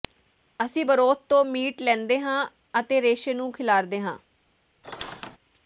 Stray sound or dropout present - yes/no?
yes